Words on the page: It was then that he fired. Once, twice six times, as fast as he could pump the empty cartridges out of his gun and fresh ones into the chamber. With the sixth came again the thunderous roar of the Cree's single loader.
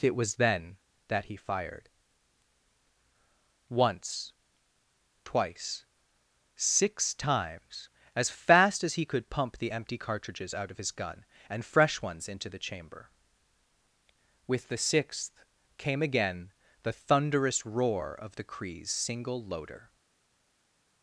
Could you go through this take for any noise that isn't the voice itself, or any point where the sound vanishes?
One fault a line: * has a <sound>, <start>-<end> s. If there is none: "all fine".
all fine